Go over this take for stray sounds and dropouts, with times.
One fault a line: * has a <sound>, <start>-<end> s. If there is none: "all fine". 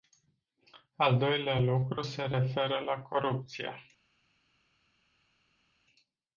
all fine